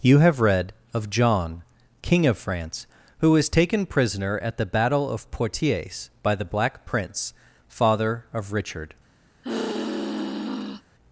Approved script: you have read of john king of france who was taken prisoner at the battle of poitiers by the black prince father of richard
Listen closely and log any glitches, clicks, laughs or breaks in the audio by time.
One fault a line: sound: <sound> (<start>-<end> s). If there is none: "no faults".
sound: sigh (9.4-10.8 s)